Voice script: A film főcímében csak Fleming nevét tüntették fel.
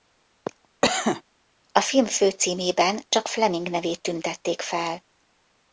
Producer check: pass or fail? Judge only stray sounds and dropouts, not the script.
fail